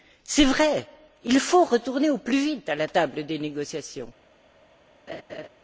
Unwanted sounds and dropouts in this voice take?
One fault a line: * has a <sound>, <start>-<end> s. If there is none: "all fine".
* has a laugh, 5.1-5.5 s